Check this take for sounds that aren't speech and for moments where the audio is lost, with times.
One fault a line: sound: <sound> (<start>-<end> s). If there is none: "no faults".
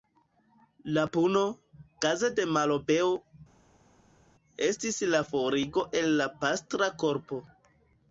no faults